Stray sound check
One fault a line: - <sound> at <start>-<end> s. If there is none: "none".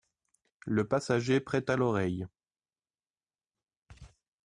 none